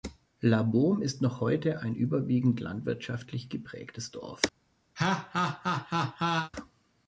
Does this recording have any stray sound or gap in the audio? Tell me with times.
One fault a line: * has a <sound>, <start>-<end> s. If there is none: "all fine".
* has a laugh, 5.0-6.5 s